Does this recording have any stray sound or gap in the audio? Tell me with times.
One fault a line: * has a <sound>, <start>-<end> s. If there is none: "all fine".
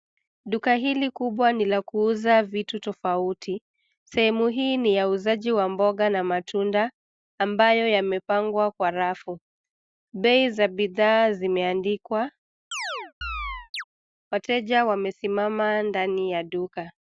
* has a chirp, 12.7-13.8 s